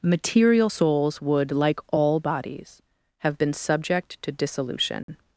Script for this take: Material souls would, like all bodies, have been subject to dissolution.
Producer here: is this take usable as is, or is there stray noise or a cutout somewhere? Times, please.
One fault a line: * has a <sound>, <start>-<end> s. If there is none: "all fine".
* has a dropout, 5.0-5.1 s